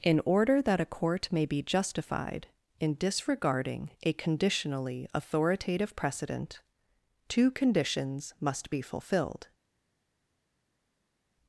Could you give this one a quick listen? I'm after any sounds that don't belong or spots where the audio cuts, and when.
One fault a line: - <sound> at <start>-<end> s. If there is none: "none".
none